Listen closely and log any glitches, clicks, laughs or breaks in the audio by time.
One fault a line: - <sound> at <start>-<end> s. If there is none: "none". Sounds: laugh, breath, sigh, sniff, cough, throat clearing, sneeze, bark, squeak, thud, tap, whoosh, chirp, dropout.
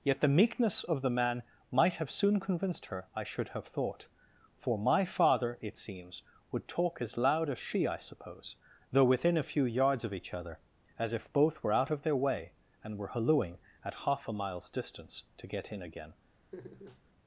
- laugh at 16.5-17.0 s